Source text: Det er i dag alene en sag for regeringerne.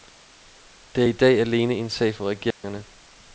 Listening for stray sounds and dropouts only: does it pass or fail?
fail